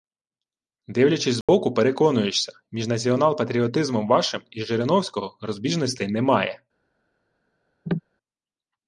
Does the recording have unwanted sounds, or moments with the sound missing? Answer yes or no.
yes